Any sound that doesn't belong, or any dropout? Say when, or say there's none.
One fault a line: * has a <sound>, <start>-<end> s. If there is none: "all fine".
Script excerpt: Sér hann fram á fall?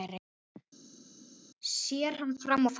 all fine